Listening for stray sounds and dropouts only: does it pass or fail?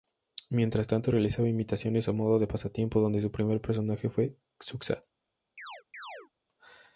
fail